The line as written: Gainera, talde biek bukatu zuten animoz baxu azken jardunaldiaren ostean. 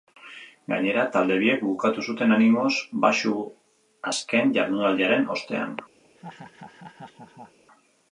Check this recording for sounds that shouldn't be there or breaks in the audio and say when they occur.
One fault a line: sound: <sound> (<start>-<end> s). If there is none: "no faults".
sound: laugh (6.0-7.6 s)